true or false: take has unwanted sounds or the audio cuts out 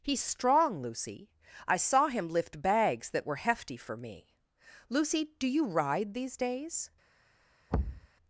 true